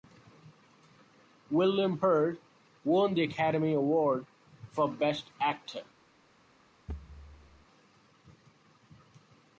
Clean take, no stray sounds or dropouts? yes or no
no